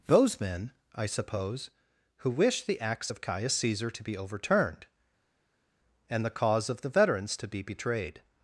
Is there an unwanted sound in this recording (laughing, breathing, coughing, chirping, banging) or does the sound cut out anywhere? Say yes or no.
no